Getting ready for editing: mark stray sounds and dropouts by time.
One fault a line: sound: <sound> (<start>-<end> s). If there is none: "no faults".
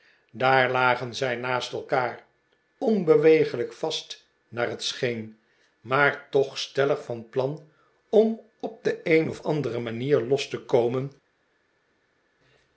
no faults